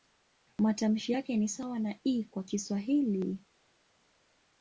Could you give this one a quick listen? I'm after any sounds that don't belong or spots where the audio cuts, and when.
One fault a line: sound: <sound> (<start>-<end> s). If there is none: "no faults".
no faults